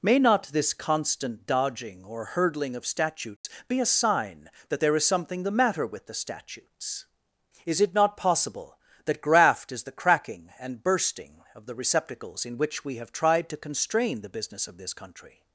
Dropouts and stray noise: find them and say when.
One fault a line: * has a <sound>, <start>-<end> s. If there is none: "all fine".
* has a dropout, 3.4-3.4 s